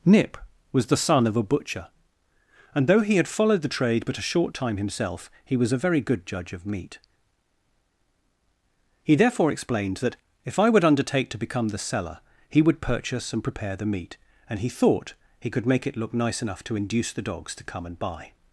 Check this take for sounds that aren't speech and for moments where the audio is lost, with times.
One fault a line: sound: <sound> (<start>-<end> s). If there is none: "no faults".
no faults